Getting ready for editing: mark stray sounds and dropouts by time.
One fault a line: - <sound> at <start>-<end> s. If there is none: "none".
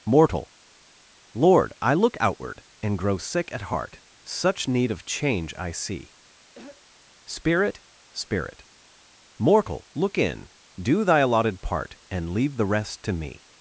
- throat clearing at 6.6-6.8 s